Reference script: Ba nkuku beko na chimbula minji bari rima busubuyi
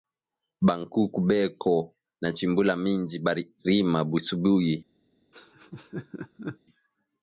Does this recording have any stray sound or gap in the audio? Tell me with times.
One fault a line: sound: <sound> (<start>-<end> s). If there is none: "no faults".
sound: laugh (5.3-6.6 s)